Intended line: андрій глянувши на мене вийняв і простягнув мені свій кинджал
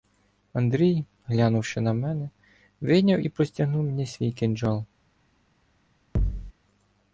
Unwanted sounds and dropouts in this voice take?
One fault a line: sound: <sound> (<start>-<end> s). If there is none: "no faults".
sound: thud (6.2-6.5 s)